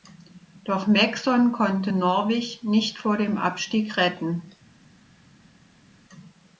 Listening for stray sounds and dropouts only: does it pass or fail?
pass